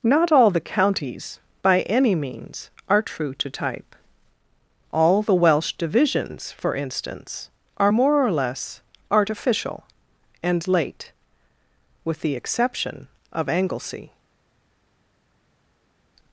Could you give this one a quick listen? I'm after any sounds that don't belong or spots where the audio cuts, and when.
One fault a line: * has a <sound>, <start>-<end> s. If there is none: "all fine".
all fine